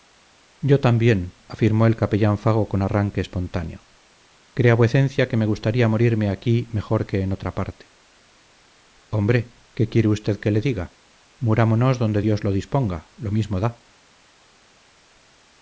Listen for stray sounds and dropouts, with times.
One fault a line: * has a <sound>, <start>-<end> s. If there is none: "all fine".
all fine